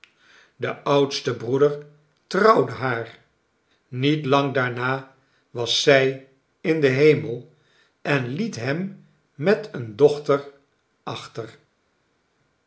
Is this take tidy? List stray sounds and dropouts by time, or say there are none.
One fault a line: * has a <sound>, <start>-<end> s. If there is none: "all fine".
all fine